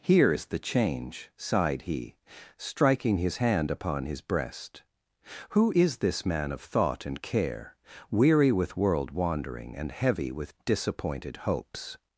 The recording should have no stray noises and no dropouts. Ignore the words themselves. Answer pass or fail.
pass